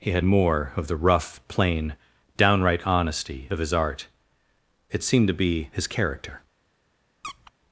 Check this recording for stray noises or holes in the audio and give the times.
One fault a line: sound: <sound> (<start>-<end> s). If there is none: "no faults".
sound: squeak (7.2-7.5 s)